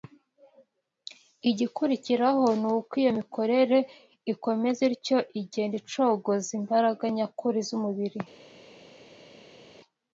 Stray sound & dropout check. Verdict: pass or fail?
pass